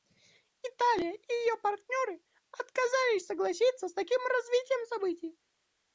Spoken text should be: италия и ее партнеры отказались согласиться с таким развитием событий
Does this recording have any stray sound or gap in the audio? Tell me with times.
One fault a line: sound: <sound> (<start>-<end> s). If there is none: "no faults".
no faults